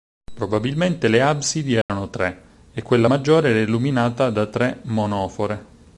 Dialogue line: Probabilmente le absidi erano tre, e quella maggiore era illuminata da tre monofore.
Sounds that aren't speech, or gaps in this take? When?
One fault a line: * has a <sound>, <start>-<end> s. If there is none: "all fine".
* has a dropout, 1.8-1.9 s